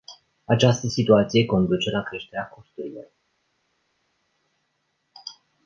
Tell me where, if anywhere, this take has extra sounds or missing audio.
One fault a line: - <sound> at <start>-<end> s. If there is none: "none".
none